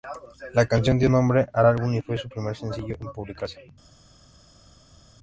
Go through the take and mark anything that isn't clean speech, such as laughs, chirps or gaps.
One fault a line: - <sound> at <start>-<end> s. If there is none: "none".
none